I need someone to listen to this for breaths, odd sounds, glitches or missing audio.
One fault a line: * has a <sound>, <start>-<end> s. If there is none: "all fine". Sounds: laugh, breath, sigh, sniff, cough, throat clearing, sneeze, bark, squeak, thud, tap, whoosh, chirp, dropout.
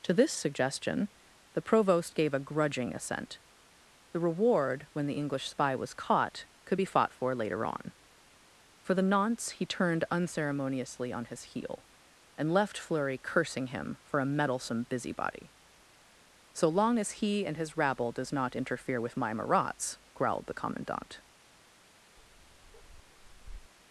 * has a bark, 22.2-23.7 s